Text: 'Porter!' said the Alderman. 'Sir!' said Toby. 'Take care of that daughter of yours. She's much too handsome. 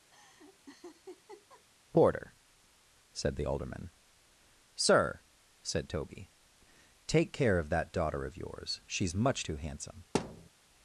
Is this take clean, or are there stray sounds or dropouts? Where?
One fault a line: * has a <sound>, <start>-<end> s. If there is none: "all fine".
* has a laugh, 0.1-1.6 s
* has a thud, 10.1-10.5 s